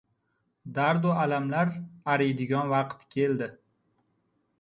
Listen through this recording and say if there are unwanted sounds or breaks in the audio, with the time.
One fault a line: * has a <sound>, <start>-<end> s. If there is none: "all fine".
all fine